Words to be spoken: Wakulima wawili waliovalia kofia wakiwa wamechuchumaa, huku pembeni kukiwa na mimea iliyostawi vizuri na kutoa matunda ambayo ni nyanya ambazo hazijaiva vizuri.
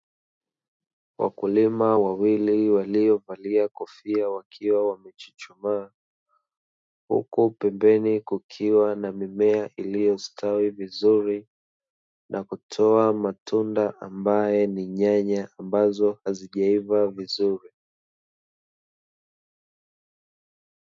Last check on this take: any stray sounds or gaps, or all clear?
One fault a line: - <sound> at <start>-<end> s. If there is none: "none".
none